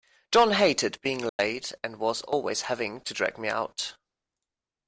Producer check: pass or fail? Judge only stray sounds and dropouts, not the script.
fail